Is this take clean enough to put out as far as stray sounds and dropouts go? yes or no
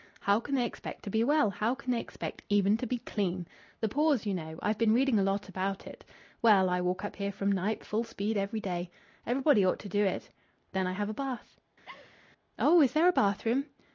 no